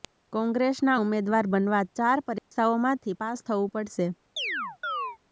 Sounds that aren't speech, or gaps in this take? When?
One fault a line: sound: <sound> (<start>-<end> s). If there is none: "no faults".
sound: dropout (2.4-2.5 s)
sound: chirp (4.4-5.2 s)